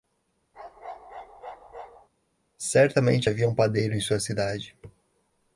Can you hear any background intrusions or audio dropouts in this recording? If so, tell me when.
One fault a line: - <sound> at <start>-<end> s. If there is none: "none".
- bark at 0.5-2.1 s